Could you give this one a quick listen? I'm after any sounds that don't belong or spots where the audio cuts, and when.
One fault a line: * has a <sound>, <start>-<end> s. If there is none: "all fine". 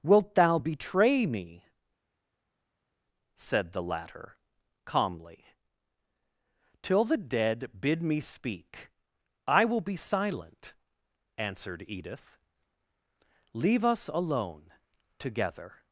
all fine